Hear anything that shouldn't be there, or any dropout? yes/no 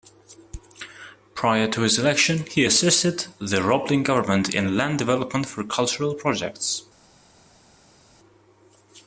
no